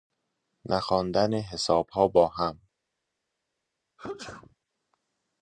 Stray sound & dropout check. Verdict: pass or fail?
fail